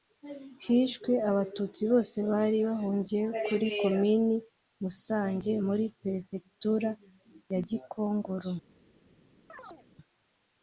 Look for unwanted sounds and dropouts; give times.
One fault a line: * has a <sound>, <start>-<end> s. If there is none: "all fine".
* has a chirp, 9.5-9.9 s